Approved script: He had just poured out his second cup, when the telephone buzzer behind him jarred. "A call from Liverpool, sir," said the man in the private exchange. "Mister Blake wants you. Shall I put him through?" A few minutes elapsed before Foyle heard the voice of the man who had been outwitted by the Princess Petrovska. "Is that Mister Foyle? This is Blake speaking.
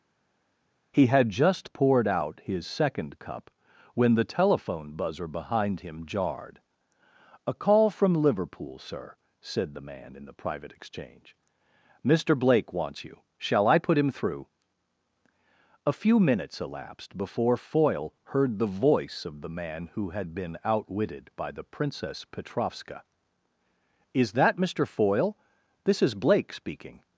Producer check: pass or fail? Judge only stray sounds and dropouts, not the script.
pass